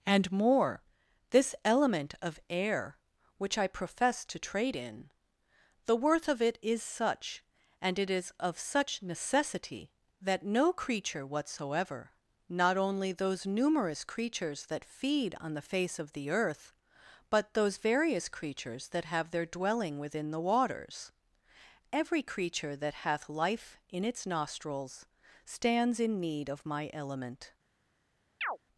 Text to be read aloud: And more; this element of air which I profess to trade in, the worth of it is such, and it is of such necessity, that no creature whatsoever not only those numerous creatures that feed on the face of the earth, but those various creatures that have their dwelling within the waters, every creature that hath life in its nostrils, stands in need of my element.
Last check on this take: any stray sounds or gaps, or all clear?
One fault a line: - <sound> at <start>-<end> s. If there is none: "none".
- chirp at 28.4-28.6 s